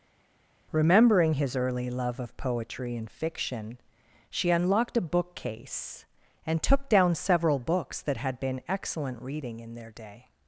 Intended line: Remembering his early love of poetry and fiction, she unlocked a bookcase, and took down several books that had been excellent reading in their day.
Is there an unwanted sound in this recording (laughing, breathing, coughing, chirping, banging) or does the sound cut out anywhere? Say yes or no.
no